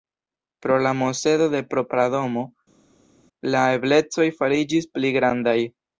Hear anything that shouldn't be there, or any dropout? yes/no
no